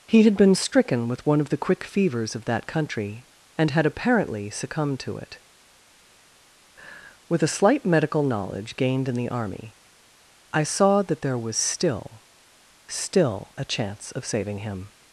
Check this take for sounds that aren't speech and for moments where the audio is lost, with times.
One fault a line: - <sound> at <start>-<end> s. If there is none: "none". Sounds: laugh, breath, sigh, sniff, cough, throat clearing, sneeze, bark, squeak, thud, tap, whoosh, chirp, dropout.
none